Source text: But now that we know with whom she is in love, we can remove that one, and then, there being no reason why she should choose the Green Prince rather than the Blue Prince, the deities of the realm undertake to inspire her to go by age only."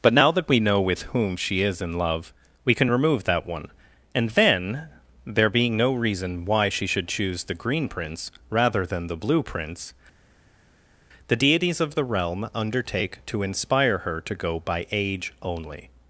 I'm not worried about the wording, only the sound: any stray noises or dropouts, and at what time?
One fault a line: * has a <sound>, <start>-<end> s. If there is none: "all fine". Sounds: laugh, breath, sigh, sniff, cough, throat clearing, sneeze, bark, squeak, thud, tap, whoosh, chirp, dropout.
all fine